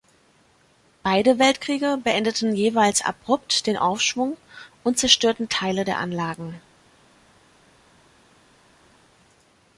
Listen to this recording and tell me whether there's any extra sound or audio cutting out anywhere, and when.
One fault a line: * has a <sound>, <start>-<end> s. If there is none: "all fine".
all fine